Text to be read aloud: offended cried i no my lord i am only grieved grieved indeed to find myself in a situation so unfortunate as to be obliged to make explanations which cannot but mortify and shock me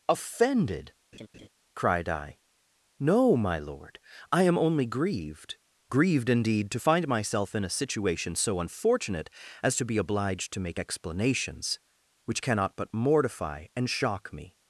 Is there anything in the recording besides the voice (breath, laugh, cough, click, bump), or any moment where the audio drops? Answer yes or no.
yes